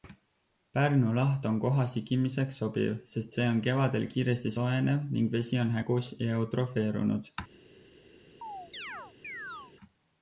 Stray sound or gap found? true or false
true